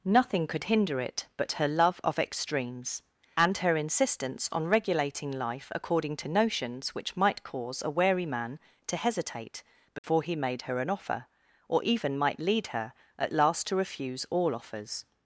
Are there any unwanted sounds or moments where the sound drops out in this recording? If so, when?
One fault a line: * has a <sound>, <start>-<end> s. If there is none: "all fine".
* has a dropout, 10.0-10.0 s